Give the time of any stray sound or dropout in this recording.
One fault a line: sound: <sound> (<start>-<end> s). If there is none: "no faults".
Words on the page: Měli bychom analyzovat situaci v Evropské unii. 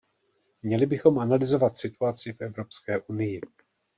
no faults